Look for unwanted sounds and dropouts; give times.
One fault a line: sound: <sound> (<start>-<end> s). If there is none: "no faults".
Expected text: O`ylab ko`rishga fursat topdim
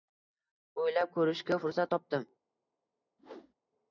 sound: whoosh (3.2-3.5 s)